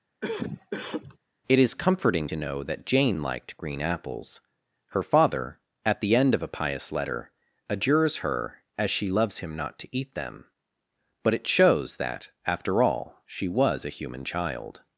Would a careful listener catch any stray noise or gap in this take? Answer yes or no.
yes